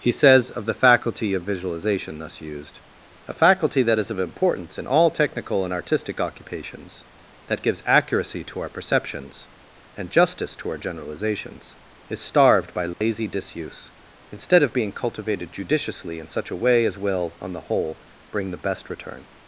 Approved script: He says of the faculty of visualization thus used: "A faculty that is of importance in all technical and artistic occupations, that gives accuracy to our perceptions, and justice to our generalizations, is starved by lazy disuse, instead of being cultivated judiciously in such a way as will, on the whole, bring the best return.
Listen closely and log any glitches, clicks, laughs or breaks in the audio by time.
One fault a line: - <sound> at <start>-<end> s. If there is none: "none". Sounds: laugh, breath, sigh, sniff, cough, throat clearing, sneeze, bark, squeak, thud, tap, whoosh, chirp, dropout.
- dropout at 12.9-13.0 s